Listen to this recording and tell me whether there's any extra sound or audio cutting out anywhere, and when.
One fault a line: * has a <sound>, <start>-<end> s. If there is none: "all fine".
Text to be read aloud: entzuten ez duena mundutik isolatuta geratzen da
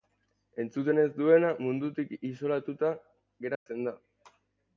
* has a dropout, 3.6-3.7 s